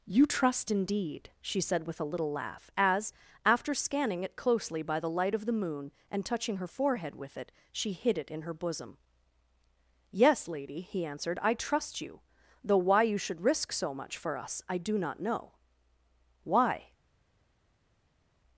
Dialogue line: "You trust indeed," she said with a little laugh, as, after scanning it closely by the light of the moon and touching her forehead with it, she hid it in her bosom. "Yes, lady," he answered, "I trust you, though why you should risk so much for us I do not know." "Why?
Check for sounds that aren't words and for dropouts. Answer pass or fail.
pass